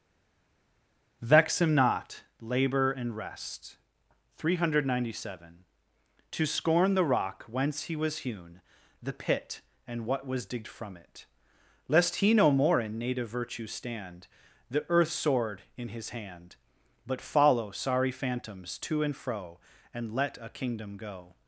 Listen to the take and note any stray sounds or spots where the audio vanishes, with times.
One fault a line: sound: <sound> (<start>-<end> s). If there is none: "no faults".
no faults